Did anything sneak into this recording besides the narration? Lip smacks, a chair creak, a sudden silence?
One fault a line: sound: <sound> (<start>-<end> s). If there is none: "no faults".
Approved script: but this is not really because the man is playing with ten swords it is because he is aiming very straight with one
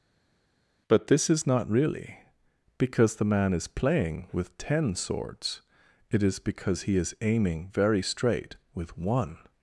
no faults